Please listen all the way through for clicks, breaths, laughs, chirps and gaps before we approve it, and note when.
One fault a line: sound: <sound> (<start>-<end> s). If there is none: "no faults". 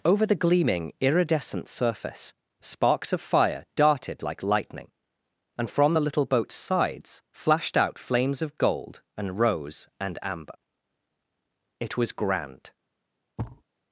sound: thud (13.4-13.6 s)